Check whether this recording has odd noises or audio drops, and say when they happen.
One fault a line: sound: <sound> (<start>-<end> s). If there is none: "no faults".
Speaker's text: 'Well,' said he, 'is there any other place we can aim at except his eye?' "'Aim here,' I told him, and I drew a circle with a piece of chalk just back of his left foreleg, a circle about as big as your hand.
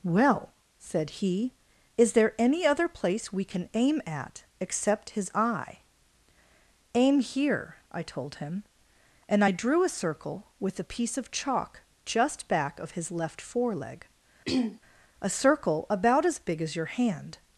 sound: throat clearing (14.5-14.8 s)